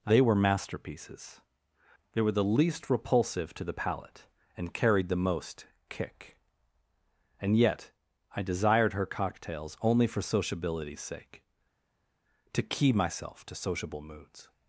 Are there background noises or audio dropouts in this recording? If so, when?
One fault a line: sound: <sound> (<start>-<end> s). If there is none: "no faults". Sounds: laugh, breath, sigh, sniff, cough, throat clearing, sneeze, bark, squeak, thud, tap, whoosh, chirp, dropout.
no faults